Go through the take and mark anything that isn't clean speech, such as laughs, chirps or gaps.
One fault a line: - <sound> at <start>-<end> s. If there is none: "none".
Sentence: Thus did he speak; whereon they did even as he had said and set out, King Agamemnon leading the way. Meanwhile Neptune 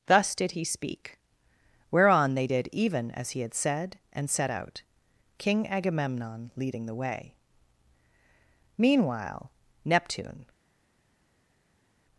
none